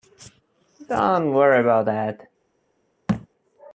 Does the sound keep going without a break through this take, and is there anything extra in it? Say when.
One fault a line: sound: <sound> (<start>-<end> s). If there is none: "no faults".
sound: thud (3.1-3.3 s)